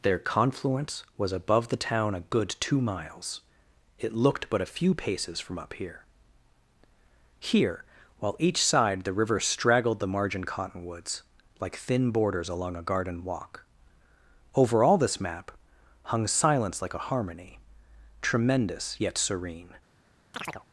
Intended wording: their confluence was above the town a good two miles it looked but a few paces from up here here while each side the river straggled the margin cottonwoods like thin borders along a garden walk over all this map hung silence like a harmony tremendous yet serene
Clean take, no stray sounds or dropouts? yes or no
no